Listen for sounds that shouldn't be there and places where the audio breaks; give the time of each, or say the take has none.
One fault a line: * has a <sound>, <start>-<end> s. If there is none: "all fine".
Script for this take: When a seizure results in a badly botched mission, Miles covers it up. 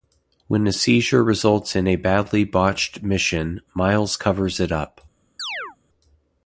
* has a chirp, 5.4-5.8 s